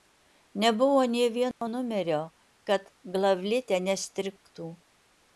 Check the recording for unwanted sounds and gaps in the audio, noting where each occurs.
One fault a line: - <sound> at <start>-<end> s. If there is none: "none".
- dropout at 1.5-1.6 s